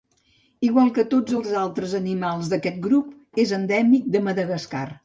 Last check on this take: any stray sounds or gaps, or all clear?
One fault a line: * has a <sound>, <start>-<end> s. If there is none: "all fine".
all fine